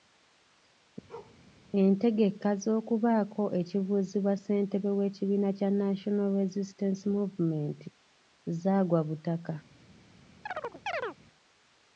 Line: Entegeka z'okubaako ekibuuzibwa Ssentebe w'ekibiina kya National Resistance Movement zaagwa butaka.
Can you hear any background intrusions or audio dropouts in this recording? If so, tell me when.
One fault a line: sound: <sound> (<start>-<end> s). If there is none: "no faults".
sound: bark (1.1-1.4 s)
sound: chirp (10.5-11.2 s)